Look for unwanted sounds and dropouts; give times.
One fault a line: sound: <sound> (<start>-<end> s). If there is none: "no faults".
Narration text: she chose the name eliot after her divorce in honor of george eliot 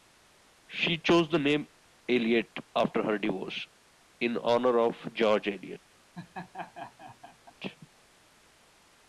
sound: laugh (6.1-7.5 s)